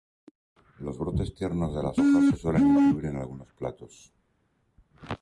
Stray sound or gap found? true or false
false